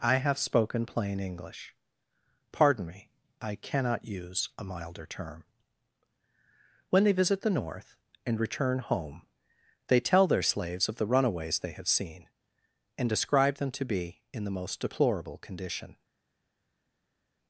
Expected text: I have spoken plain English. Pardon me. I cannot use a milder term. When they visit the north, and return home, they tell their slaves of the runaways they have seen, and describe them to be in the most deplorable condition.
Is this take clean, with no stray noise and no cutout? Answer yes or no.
yes